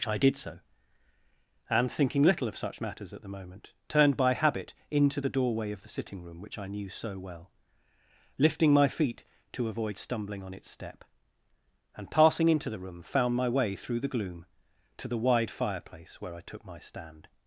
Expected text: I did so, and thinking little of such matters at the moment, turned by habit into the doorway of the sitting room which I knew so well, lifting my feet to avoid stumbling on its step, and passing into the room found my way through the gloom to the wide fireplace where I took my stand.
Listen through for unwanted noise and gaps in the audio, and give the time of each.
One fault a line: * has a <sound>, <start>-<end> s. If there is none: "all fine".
all fine